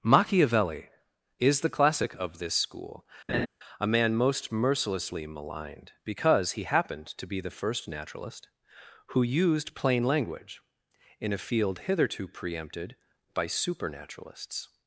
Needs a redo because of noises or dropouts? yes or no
yes